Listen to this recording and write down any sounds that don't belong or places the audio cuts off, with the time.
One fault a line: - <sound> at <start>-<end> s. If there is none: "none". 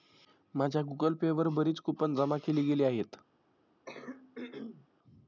- throat clearing at 3.9-4.9 s